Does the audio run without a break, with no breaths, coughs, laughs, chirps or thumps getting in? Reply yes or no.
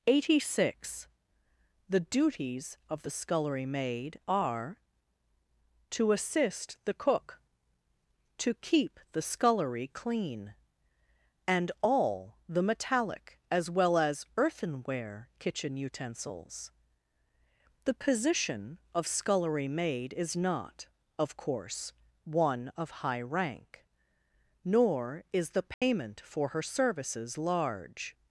no